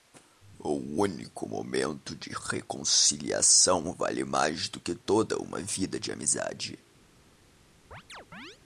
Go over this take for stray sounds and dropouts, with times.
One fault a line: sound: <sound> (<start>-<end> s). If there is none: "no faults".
sound: chirp (7.9-8.6 s)